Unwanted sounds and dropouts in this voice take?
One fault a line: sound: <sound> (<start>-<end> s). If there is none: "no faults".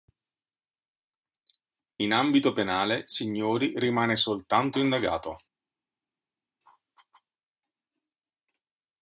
no faults